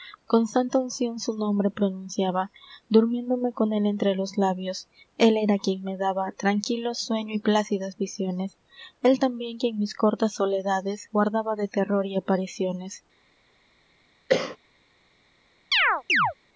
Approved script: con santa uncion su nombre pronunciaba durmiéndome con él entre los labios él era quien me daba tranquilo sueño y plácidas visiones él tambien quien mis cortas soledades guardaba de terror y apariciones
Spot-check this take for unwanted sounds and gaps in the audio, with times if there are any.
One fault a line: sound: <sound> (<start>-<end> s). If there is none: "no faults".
sound: cough (14.3-14.6 s)
sound: chirp (15.7-16.3 s)